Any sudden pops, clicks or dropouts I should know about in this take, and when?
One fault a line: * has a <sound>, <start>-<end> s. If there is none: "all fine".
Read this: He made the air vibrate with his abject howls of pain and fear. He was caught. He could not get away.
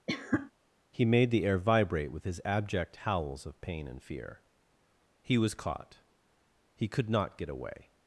* has a cough, 0.1-0.5 s